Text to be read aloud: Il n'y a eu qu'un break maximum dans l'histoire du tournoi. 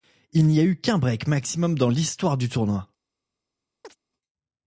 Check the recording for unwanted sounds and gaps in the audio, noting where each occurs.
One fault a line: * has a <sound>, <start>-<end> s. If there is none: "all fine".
* has a chirp, 3.8-4.0 s